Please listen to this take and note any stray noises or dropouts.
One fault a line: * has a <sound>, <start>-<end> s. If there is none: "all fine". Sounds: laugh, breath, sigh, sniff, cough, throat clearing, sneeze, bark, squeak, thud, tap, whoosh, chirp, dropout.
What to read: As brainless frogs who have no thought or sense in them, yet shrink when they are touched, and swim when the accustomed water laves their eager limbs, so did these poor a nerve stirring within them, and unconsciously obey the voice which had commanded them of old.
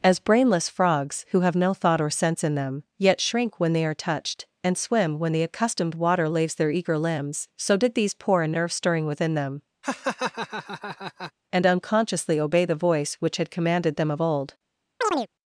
* has a laugh, 9.8-11.3 s
* has a chirp, 15.0-15.3 s